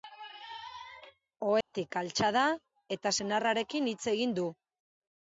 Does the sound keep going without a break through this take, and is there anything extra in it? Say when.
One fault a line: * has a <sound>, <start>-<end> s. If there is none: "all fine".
* has a dropout, 1.6-1.7 s